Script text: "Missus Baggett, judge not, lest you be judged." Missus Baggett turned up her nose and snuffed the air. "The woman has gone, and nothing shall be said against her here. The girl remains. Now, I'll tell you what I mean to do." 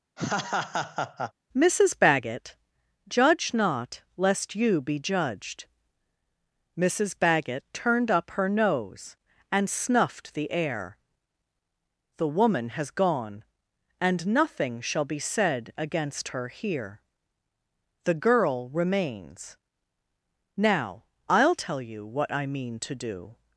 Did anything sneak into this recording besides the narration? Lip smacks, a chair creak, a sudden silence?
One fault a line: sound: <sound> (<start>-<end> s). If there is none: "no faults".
sound: laugh (0.2-1.3 s)